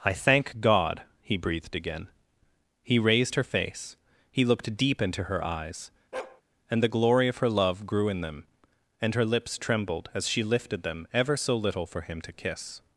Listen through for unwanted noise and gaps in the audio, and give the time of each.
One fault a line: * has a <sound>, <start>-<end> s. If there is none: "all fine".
* has a bark, 6.1-6.4 s